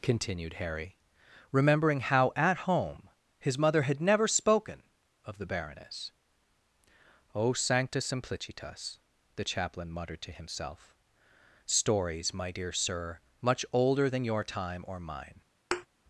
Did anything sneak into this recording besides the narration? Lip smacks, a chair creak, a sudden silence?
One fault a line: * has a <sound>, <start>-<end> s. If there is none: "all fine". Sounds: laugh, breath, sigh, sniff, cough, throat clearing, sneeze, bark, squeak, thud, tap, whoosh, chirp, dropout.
* has a thud, 15.7-15.9 s